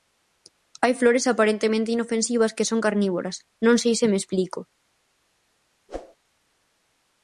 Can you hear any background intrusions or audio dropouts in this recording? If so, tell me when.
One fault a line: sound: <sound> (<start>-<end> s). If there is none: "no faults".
sound: whoosh (5.9-6.2 s)